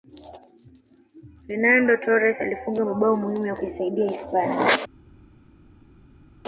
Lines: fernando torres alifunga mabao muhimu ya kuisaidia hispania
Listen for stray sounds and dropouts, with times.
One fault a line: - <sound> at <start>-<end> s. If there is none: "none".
none